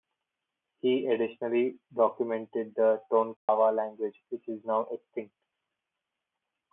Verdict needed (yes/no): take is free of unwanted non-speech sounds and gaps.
no